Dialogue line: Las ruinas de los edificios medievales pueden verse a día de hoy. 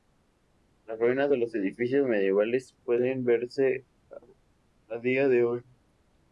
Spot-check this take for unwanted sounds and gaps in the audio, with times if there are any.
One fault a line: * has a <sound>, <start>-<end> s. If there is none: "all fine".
all fine